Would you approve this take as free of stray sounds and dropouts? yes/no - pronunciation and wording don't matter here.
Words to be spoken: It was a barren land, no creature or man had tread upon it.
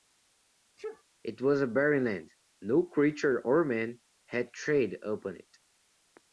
no